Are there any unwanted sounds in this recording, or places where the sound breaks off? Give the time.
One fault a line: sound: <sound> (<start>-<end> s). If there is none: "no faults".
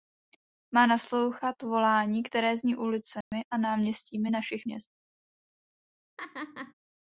sound: dropout (3.2-3.3 s)
sound: laugh (6.2-6.7 s)